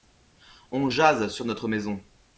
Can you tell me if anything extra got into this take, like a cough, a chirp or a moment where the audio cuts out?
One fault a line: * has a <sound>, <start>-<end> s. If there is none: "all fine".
all fine